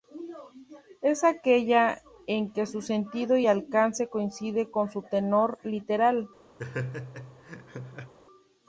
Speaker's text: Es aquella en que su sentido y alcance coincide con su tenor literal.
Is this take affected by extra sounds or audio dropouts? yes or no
yes